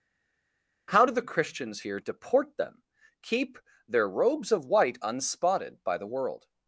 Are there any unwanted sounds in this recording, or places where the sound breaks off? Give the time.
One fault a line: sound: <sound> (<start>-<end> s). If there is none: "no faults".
no faults